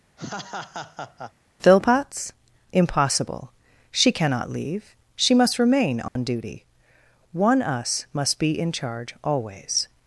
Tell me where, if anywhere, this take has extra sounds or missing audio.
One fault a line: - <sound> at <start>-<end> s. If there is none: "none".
- laugh at 0.2-1.3 s
- dropout at 6.1-6.2 s